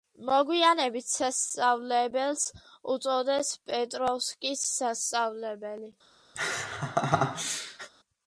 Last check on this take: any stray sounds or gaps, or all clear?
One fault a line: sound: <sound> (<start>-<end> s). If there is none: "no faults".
sound: laugh (6.4-7.9 s)